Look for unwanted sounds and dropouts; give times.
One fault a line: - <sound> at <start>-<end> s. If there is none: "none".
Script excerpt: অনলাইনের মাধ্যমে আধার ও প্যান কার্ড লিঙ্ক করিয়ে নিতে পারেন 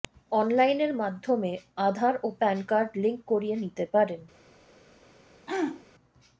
- throat clearing at 5.5-5.8 s